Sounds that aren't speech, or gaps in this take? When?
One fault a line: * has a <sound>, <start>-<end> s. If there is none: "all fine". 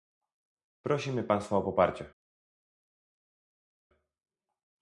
all fine